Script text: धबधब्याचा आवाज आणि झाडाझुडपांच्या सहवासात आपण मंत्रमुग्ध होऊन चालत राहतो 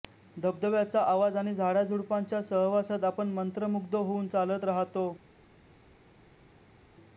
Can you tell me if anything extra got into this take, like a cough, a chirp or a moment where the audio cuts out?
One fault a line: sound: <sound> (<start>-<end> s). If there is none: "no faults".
no faults